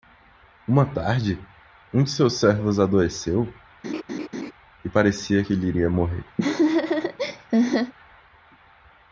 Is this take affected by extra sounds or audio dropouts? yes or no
yes